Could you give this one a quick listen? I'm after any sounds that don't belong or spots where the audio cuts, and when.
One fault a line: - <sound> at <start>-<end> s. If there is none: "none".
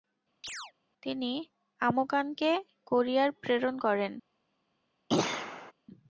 - chirp at 0.4-0.7 s
- throat clearing at 5.1-5.7 s